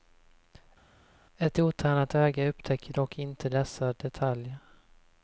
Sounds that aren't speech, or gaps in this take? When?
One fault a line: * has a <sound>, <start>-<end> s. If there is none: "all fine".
all fine